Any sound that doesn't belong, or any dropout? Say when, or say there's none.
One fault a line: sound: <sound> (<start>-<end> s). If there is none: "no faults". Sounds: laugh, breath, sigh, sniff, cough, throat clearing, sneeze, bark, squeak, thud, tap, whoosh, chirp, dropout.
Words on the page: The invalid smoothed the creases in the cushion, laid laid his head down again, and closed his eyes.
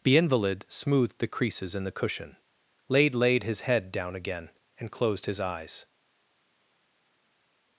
no faults